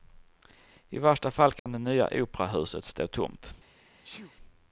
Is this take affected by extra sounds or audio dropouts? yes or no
yes